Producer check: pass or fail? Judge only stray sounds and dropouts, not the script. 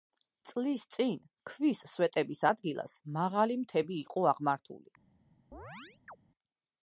fail